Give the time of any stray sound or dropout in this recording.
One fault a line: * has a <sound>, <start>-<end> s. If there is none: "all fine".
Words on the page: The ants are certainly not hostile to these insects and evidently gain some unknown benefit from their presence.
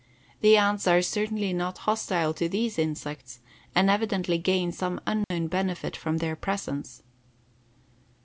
* has a dropout, 5.2-5.3 s